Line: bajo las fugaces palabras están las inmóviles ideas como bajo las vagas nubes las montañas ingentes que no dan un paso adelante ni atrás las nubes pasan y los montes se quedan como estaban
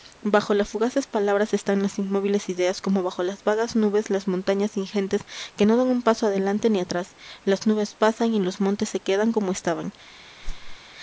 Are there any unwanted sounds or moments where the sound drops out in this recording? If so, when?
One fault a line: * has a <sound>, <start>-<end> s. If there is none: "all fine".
* has a whoosh, 10.4-10.8 s